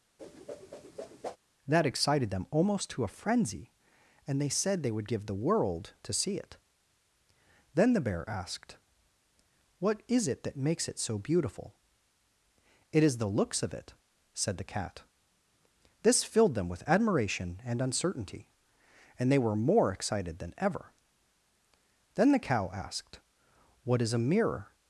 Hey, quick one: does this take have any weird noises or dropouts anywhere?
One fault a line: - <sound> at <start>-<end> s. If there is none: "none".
- whoosh at 0.2-1.4 s